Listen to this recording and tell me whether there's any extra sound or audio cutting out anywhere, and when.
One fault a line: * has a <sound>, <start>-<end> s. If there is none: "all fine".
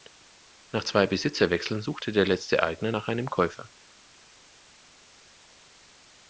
all fine